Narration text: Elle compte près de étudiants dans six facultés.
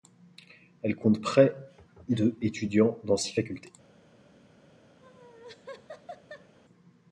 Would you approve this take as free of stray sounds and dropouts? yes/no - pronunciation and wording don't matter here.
no